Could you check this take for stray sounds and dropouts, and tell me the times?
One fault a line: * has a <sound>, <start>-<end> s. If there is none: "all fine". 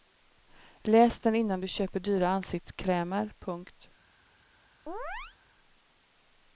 * has a chirp, 4.9-5.4 s